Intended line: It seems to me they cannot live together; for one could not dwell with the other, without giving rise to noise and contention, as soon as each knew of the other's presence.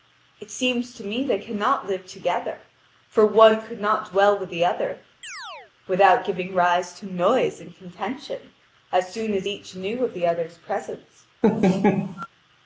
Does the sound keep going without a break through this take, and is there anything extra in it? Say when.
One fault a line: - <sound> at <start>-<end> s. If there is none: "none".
- chirp at 5.2-5.7 s
- laugh at 11.4-12.3 s